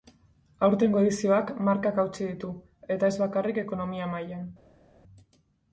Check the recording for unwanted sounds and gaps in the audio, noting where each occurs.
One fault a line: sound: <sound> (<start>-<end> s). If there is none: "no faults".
no faults